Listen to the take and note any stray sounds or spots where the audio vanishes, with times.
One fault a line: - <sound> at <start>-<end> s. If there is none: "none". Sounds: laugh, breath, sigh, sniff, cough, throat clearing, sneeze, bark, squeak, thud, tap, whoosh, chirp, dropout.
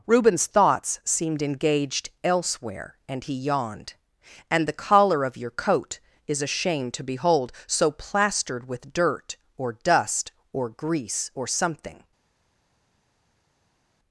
none